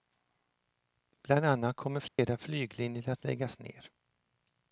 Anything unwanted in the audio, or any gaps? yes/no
yes